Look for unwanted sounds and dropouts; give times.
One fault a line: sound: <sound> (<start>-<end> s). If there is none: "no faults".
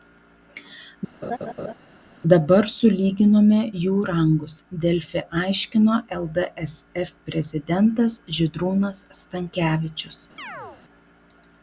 sound: laugh (1.2-1.7 s)
sound: chirp (10.4-10.8 s)